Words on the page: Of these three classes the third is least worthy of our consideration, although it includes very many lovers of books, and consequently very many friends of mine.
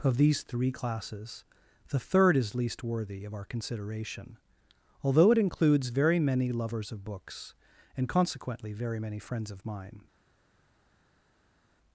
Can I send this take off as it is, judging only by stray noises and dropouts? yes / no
yes